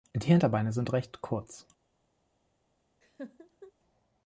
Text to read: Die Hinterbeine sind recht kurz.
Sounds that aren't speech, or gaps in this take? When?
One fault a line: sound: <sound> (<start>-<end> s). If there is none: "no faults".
sound: laugh (3.0-3.7 s)